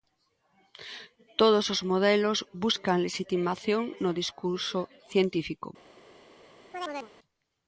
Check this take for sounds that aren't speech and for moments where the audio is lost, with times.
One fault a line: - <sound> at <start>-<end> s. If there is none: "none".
- chirp at 6.7-7.1 s